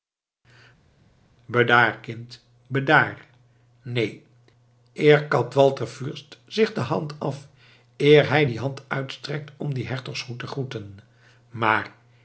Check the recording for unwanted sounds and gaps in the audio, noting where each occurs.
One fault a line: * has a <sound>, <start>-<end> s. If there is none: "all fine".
all fine